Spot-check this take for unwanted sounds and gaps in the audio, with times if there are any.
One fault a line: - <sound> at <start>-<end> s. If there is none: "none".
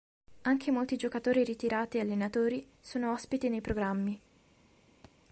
- thud at 5.0-5.2 s